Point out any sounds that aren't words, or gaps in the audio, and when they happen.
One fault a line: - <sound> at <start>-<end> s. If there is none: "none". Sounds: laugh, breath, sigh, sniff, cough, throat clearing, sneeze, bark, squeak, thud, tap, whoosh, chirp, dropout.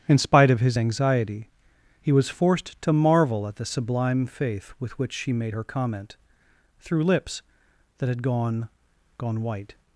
none